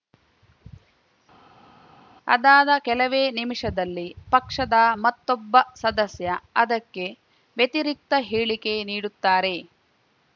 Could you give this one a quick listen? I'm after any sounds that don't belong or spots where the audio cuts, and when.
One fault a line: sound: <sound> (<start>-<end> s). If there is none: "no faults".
no faults